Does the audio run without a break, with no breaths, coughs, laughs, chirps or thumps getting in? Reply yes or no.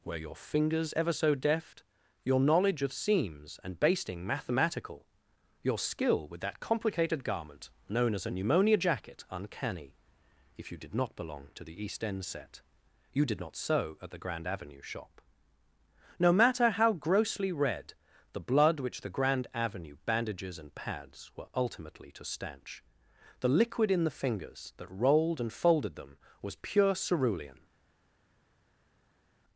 yes